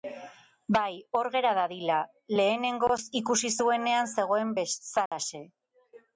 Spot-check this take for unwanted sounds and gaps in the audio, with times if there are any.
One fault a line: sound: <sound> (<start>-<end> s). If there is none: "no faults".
sound: dropout (5.1-5.1 s)